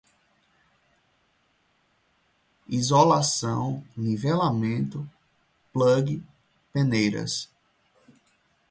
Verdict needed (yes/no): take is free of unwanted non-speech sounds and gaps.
yes